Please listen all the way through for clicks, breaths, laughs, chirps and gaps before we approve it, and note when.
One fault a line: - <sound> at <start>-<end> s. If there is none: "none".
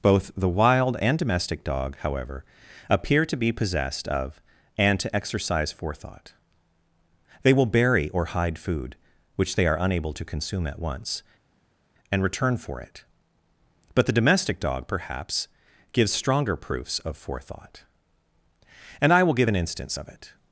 none